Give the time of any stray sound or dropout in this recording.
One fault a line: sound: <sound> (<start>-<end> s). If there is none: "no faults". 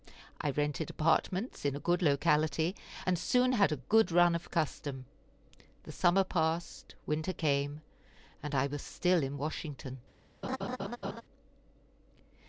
sound: laugh (10.4-11.2 s)